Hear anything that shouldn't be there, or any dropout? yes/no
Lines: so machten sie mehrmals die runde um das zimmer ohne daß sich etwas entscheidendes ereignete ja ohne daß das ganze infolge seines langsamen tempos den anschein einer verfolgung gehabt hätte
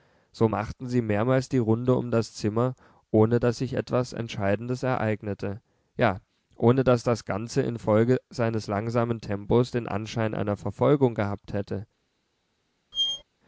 yes